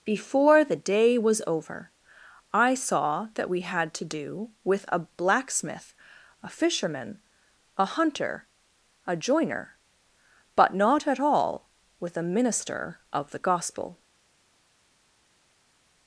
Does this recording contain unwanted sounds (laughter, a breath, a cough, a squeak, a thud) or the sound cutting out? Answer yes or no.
no